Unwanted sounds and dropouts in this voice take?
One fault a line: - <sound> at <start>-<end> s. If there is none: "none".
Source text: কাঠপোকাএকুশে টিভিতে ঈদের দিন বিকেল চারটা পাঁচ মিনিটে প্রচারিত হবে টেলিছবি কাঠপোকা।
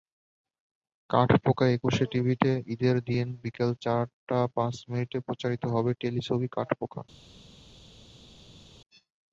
none